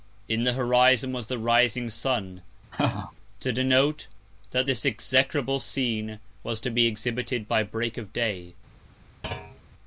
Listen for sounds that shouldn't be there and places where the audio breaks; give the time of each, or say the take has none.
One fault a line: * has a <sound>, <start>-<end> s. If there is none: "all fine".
* has a laugh, 2.7-3.1 s
* has a thud, 9.2-9.6 s